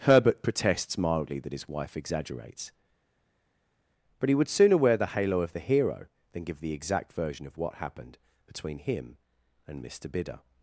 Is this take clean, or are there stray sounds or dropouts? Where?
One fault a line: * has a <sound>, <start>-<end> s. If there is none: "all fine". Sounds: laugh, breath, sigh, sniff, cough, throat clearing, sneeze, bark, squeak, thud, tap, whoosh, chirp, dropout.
all fine